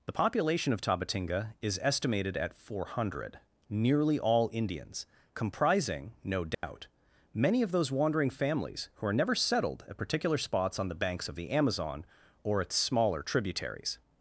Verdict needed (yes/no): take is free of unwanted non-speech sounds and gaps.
no